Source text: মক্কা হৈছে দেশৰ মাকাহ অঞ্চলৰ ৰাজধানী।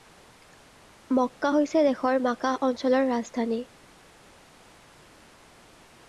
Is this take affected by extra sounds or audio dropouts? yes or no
no